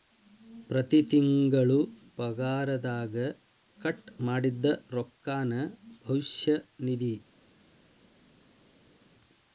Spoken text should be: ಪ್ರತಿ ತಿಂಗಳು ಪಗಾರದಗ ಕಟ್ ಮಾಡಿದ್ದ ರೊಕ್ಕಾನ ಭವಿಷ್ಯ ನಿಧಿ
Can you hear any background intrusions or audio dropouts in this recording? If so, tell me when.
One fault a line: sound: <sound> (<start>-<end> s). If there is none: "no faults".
no faults